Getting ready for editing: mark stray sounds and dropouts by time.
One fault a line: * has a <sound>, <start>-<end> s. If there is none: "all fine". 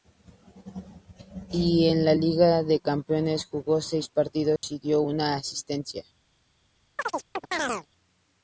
* has a dropout, 4.6-4.6 s
* has a chirp, 7.0-7.9 s